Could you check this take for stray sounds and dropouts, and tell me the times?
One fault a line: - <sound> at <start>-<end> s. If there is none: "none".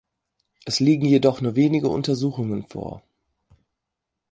none